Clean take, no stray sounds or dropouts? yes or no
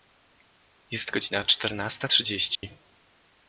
no